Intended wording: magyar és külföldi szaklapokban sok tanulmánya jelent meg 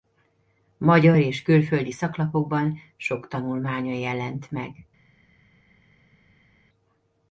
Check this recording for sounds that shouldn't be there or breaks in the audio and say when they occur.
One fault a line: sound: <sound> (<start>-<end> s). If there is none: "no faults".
no faults